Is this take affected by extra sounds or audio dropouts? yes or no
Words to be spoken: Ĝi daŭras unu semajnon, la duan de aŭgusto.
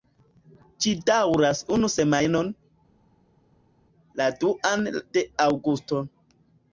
no